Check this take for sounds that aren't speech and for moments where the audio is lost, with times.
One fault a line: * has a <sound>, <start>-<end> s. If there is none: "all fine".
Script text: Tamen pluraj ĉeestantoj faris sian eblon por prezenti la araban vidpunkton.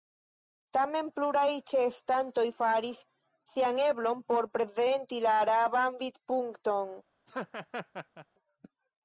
* has a laugh, 7.3-8.3 s